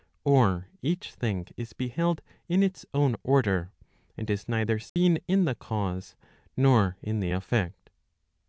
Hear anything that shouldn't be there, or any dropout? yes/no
yes